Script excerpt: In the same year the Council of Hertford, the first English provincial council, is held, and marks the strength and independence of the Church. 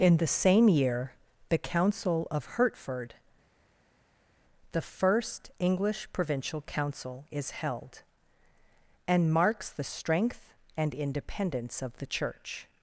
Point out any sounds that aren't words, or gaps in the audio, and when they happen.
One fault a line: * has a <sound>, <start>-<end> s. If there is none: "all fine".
all fine